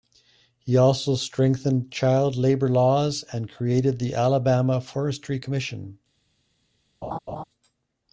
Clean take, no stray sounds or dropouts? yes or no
no